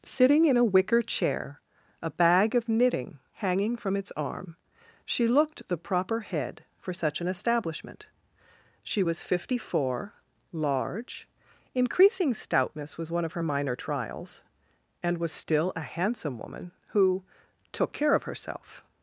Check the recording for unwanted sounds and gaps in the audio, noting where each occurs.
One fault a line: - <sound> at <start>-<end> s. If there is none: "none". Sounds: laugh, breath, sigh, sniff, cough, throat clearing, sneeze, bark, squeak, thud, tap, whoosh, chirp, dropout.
none